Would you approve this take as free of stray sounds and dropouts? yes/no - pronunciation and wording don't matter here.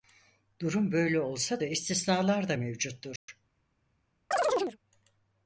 no